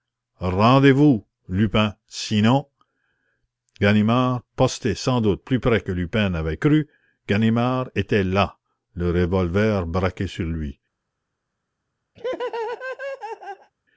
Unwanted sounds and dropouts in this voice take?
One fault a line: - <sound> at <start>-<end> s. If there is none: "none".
- laugh at 12.2-13.7 s